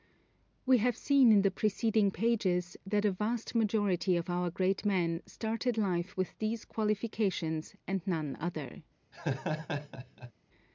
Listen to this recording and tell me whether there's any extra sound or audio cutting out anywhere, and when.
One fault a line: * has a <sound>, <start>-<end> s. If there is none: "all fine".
* has a laugh, 9.1-10.3 s